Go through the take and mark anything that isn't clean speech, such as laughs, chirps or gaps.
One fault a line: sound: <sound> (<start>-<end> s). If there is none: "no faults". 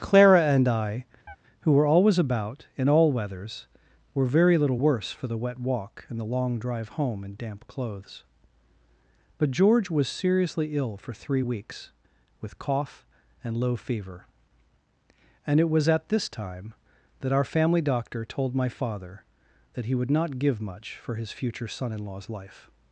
sound: chirp (1.3-1.4 s)